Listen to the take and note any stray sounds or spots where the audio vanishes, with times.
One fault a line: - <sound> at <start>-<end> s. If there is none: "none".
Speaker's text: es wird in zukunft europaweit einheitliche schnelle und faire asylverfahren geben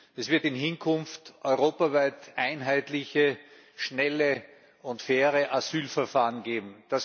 none